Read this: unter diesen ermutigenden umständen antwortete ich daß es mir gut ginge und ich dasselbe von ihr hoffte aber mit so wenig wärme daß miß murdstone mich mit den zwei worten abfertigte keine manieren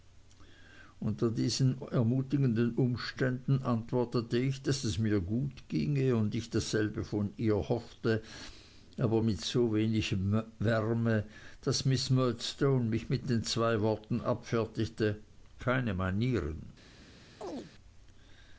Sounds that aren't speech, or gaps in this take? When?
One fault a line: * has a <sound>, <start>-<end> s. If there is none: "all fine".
* has a chirp, 17.4-17.7 s